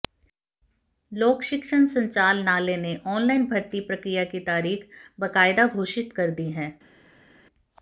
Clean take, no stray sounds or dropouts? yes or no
yes